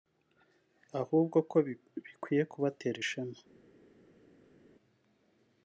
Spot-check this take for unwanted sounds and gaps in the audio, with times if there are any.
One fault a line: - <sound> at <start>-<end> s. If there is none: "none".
none